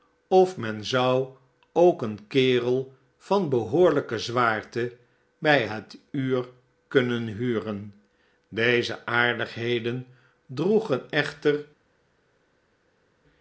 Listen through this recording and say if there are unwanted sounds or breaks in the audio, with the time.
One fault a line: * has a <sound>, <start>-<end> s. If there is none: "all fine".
all fine